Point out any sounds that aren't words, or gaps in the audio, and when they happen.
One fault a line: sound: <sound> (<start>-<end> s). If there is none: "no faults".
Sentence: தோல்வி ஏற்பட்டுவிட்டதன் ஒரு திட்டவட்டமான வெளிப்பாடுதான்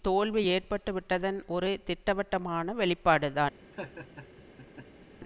sound: laugh (3.7-5.1 s)